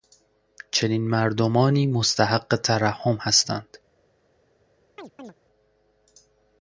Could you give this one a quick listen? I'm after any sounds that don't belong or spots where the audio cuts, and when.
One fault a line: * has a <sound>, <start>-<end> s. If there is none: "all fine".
* has a chirp, 5.0-5.3 s